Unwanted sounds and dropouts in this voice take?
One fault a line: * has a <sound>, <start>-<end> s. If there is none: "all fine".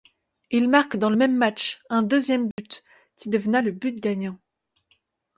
* has a dropout, 2.5-2.6 s